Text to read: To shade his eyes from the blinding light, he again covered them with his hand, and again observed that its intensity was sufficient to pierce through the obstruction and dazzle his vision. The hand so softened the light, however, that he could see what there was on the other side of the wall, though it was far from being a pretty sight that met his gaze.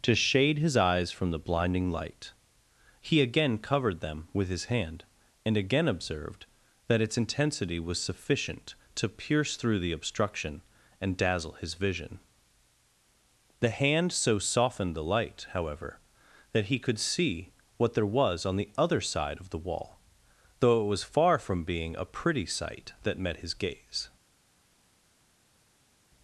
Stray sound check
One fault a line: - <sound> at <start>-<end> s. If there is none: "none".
none